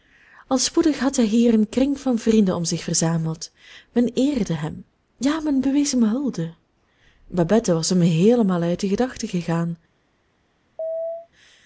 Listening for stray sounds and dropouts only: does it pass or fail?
fail